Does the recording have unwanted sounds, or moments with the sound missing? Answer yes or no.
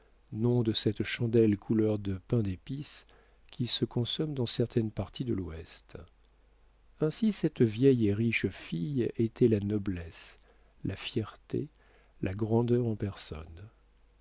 no